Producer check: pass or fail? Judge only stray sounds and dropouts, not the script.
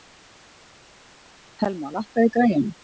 pass